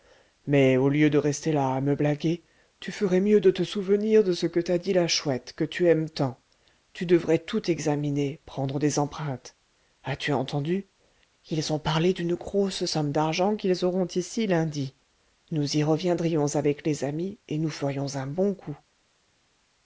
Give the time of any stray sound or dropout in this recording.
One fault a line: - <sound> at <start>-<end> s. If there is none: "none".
none